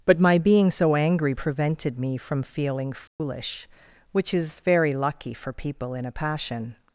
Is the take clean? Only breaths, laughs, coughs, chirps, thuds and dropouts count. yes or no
no